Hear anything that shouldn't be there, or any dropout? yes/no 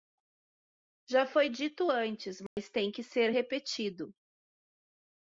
yes